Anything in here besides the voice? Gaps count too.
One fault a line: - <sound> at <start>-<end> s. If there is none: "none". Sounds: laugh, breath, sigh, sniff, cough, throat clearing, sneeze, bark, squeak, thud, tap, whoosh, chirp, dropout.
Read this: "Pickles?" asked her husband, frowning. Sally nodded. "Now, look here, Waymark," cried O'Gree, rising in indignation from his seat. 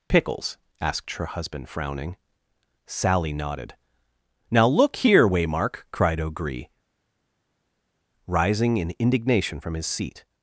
none